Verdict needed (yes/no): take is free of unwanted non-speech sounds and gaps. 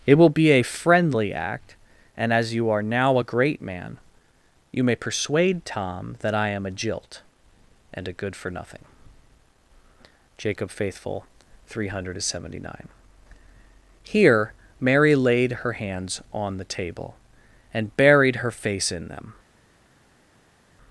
yes